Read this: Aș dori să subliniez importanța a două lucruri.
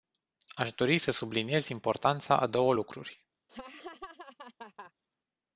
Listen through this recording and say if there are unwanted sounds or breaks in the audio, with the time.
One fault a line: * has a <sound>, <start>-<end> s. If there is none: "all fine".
* has a laugh, 3.5-4.9 s